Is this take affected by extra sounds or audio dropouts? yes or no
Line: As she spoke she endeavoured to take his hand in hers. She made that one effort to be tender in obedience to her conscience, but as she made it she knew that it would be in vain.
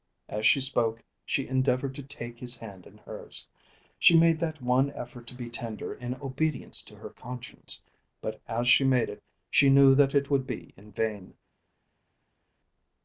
no